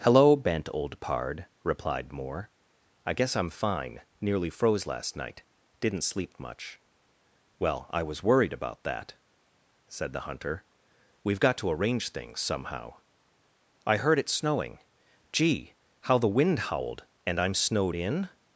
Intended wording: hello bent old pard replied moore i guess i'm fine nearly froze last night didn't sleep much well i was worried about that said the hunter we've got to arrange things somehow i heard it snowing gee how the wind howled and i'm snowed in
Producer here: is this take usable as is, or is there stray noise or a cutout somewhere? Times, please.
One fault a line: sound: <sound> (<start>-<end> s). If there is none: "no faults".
no faults